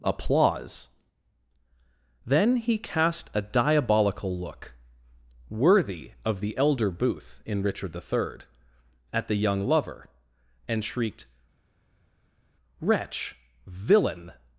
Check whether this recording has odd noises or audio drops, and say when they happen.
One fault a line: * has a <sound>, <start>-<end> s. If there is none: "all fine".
all fine